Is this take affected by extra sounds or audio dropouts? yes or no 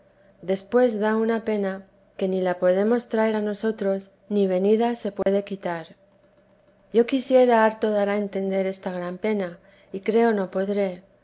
yes